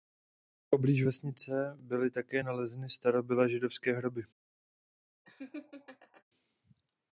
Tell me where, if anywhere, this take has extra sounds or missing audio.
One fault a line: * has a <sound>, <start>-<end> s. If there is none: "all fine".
* has a laugh, 5.2-6.2 s